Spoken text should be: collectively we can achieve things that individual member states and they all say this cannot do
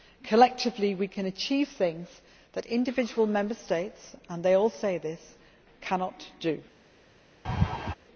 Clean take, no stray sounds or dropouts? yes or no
no